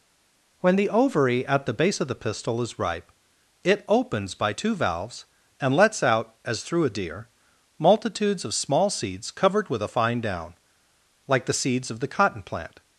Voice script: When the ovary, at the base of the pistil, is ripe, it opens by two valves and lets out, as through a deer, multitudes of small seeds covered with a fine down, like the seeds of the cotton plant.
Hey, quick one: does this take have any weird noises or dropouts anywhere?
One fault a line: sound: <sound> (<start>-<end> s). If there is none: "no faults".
no faults